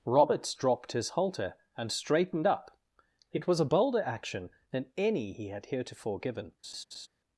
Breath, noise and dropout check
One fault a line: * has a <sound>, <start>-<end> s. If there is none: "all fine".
* has a laugh, 6.6-7.1 s